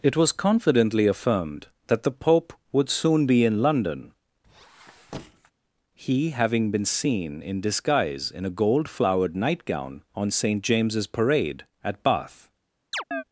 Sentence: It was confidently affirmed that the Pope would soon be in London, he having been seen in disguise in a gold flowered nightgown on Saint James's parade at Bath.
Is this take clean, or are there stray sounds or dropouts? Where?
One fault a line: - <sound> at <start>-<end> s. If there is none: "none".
- squeak at 4.4-5.5 s
- chirp at 12.9-13.2 s